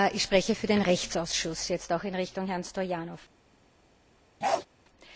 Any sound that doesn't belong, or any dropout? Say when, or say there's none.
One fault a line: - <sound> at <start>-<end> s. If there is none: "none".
- bark at 4.4-4.7 s